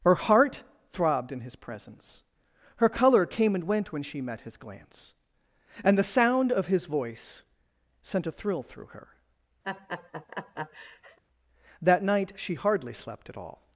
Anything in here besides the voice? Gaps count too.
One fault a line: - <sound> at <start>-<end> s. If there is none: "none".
- laugh at 9.6-11.2 s